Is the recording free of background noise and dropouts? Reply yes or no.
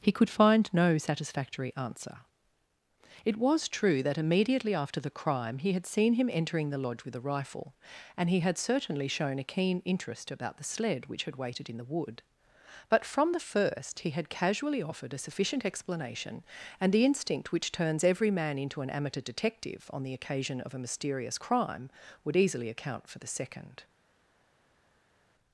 yes